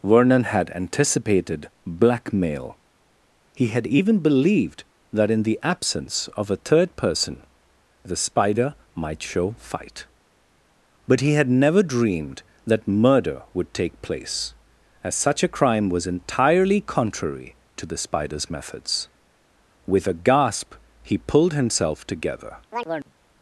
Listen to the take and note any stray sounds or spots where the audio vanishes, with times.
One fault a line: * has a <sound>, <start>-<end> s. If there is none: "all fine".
* has a chirp, 22.7-23.1 s